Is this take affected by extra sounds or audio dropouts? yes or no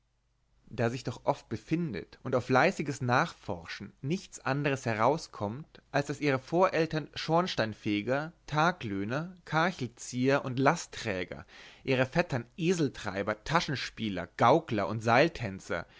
no